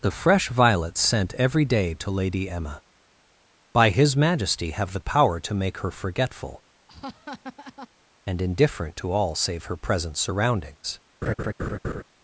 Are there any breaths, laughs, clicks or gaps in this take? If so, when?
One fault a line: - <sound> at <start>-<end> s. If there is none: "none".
- laugh at 6.9-7.9 s
- laugh at 11.2-12.0 s